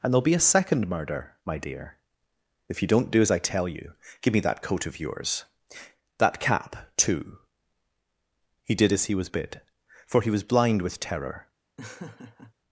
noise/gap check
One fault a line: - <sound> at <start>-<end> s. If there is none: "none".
- laugh at 11.8-12.5 s